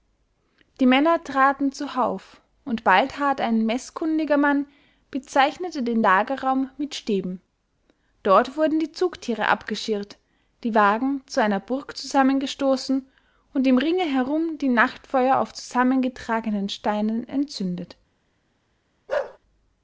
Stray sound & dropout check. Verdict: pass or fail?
fail